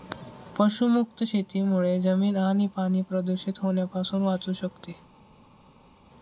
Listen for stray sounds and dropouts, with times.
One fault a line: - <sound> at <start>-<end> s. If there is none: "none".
none